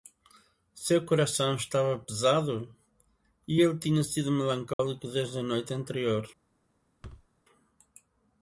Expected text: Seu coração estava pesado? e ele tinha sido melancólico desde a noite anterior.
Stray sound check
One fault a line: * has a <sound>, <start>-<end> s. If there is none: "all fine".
* has a dropout, 4.7-4.8 s
* has a thud, 7.0-7.3 s